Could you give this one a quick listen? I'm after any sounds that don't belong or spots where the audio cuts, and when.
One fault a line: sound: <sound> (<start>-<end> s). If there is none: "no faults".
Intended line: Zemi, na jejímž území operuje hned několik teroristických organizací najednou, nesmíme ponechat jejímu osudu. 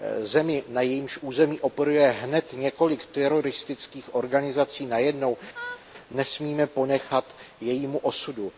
sound: laugh (5.5-5.9 s)